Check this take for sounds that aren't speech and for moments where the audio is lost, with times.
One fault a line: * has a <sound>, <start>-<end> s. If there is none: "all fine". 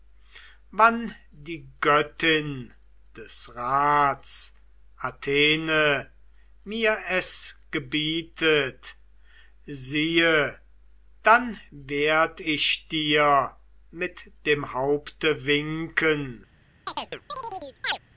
* has a chirp, 16.9-18.0 s